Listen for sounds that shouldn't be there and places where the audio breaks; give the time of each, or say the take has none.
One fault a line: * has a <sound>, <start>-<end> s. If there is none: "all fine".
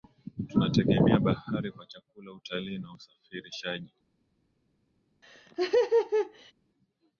* has a laugh, 5.2-6.5 s